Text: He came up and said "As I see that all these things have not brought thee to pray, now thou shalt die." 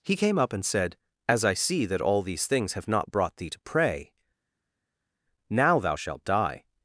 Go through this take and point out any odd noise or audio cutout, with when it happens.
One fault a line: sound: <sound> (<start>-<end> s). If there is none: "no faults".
no faults